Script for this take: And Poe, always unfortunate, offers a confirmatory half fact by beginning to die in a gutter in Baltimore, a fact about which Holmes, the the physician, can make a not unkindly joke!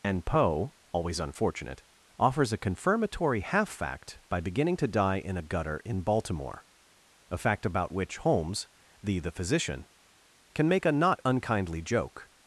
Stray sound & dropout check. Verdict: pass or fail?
pass